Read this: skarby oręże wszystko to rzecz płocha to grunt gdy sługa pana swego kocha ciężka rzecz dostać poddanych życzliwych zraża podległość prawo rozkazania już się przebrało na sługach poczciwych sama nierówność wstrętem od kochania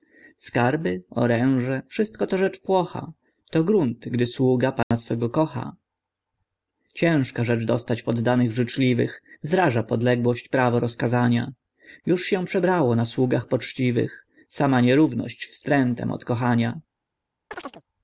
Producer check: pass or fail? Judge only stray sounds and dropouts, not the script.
fail